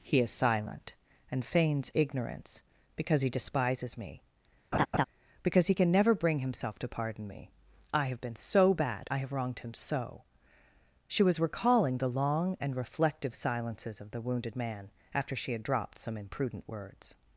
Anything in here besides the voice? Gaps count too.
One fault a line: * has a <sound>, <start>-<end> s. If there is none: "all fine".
* has a laugh, 4.7-5.1 s